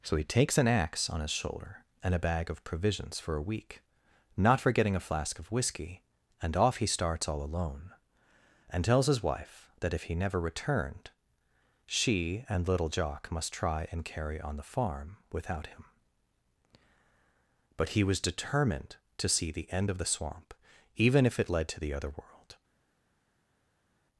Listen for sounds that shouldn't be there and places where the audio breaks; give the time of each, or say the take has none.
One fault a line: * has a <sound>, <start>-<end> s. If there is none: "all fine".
all fine